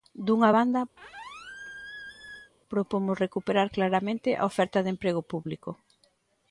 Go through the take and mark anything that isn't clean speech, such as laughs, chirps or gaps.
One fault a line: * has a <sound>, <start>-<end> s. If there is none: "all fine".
* has a squeak, 1.0-2.5 s